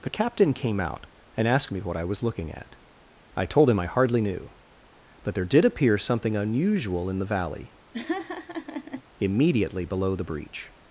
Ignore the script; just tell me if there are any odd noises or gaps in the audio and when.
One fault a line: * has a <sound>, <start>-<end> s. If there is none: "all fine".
* has a laugh, 7.9-9.0 s